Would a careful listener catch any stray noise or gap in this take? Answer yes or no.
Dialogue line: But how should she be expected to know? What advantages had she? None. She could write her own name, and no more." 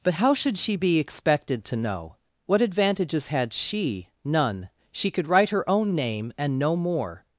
no